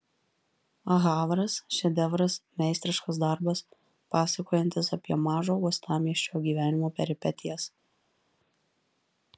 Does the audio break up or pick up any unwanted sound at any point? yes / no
no